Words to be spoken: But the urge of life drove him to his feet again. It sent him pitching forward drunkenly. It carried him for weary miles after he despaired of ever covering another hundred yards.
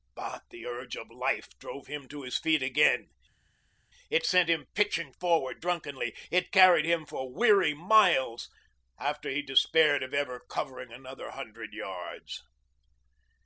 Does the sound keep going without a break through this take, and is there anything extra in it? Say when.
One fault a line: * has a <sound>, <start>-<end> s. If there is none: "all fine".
all fine